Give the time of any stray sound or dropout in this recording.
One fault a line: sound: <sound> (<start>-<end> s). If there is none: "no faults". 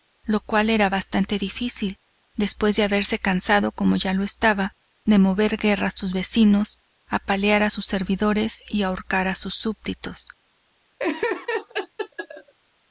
sound: laugh (11.0-12.5 s)